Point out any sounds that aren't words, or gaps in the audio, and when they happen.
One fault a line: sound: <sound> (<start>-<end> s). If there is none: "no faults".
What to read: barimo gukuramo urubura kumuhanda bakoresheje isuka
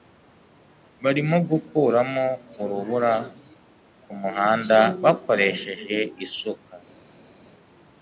no faults